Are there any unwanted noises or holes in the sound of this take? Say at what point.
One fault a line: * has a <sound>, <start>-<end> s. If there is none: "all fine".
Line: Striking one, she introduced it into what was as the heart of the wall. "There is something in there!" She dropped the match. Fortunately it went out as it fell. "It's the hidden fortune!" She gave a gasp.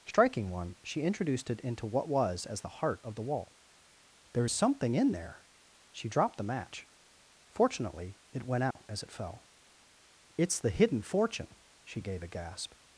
* has a dropout, 8.7-8.8 s